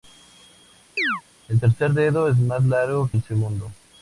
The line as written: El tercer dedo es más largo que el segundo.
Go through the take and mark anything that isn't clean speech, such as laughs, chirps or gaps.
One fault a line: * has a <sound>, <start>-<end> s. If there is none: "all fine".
* has a chirp, 1.0-1.2 s